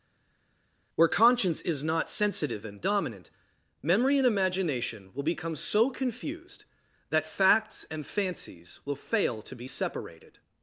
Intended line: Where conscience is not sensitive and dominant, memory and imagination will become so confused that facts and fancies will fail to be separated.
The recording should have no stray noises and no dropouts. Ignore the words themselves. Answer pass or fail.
pass